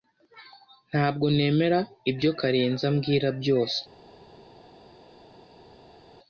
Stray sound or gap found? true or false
false